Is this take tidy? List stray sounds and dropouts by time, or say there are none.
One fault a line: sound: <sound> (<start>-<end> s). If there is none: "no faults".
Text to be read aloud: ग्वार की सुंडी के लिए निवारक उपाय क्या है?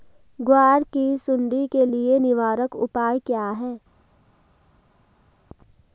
no faults